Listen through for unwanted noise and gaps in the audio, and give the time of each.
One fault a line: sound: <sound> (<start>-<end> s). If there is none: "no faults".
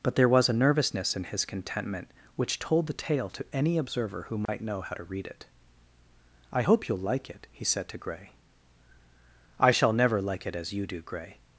sound: dropout (4.5-4.5 s)